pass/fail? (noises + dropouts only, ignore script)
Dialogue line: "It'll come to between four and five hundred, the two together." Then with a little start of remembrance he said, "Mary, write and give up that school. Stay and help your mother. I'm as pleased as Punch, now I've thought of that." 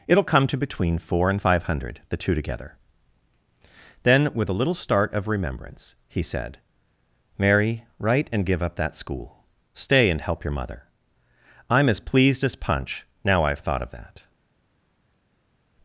pass